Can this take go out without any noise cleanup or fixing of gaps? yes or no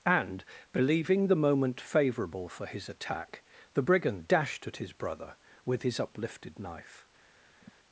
no